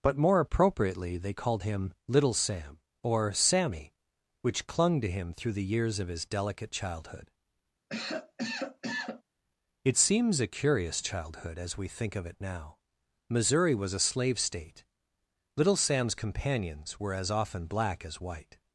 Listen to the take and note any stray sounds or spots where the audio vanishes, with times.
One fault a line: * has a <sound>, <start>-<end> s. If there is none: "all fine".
* has a cough, 7.9-9.2 s